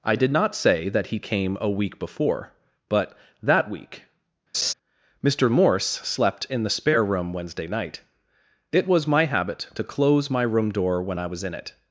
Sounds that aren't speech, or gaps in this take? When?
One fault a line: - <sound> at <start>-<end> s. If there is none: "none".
- laugh at 4.5-4.7 s